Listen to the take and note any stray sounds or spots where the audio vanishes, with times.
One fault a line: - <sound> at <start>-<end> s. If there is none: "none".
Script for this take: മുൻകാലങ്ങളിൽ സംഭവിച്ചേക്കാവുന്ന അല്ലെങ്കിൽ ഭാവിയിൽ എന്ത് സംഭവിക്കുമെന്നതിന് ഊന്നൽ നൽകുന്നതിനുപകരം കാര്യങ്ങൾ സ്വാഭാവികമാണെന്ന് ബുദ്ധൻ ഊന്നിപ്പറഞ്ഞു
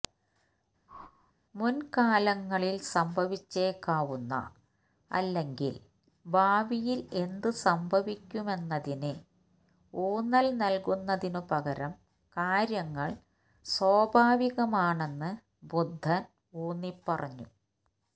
- whoosh at 0.9-1.3 s